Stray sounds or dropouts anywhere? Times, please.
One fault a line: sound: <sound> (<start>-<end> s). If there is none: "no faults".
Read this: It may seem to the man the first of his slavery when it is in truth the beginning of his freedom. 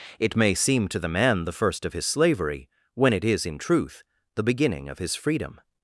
no faults